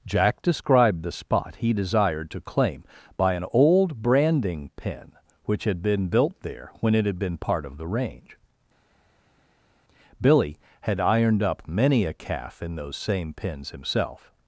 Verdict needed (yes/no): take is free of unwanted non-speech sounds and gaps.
yes